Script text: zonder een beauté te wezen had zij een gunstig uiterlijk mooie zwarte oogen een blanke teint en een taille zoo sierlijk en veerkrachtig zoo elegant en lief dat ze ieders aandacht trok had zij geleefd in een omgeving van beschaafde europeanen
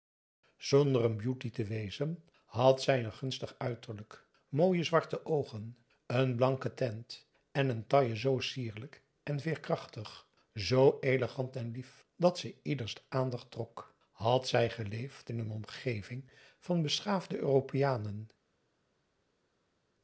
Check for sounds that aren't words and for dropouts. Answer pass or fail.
pass